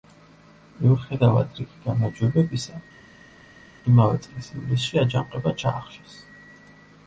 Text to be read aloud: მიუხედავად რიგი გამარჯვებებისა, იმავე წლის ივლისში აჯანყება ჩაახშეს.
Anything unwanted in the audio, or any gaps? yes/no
no